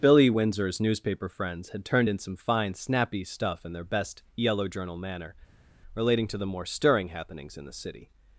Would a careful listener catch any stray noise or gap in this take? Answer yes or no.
no